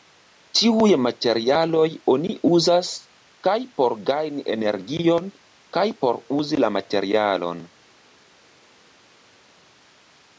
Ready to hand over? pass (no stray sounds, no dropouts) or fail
pass